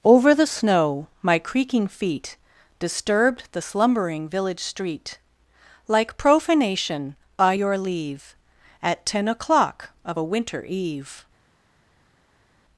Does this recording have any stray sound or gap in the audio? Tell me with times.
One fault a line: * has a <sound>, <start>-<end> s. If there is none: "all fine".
all fine